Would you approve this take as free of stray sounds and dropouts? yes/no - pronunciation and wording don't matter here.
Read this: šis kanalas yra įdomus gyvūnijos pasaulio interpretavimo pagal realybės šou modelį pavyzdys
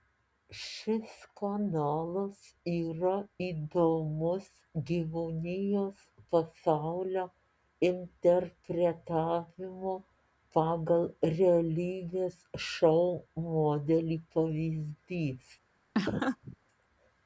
no